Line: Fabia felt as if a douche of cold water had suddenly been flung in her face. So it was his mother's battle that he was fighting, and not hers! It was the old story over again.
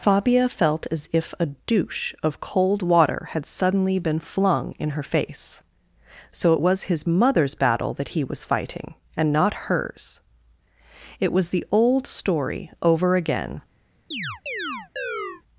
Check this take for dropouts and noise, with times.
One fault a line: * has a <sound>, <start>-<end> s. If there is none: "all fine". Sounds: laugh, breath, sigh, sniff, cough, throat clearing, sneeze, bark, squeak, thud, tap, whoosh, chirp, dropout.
* has a chirp, 14.1-15.4 s